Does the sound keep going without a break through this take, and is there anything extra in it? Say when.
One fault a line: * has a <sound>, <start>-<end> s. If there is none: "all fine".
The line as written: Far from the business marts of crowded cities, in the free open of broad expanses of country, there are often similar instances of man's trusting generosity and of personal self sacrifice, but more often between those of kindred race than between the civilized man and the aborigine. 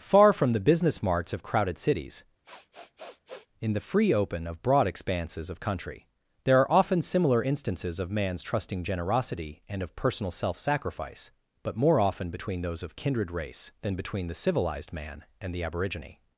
* has a sniff, 2.4-3.5 s